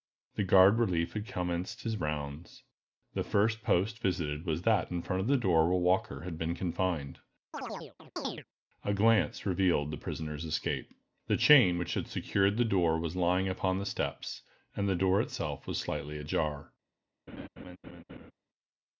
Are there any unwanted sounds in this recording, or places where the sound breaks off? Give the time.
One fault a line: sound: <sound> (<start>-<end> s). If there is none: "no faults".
sound: chirp (7.5-8.4 s)
sound: laugh (17.3-18.3 s)